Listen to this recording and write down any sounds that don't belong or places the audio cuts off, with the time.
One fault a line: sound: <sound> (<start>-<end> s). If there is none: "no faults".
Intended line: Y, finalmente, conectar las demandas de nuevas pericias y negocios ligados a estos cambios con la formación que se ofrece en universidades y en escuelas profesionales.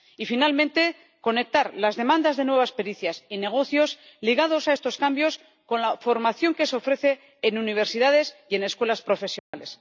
sound: dropout (9.4-9.5 s)